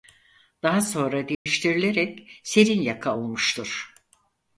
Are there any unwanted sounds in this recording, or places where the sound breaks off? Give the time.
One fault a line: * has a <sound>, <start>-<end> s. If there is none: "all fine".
* has a dropout, 1.3-1.5 s